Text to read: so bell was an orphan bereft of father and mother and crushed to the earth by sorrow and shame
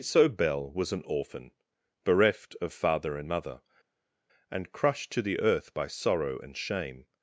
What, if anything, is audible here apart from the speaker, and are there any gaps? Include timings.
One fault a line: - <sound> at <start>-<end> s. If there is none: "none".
none